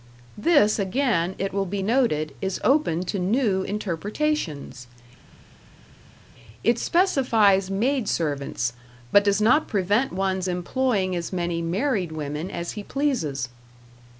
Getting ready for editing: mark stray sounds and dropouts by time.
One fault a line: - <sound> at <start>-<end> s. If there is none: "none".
none